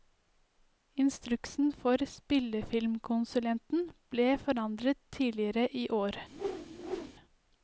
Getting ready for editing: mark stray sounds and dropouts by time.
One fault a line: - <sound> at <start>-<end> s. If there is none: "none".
- whoosh at 6.3-7.1 s